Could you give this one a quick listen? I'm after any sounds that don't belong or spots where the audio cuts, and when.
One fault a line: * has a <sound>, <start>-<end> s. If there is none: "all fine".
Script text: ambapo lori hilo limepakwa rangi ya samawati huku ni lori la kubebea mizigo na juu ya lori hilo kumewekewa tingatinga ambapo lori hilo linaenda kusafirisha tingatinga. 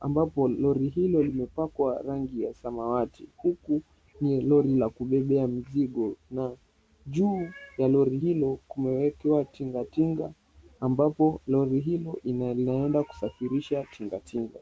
all fine